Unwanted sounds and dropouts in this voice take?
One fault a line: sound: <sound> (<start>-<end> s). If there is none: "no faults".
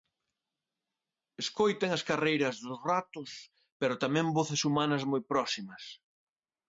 no faults